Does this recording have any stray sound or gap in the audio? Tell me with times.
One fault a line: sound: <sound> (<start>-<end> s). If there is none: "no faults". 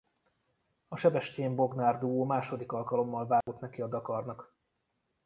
sound: dropout (3.4-3.5 s)